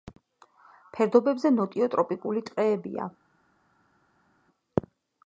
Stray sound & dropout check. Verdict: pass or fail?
pass